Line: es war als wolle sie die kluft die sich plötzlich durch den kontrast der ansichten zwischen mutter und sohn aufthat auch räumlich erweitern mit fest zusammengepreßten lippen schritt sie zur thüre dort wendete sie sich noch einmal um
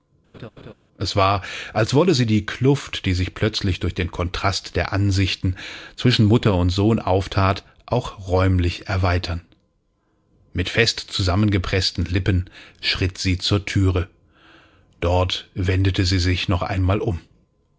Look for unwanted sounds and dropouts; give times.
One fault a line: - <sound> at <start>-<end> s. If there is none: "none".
- laugh at 0.3-0.7 s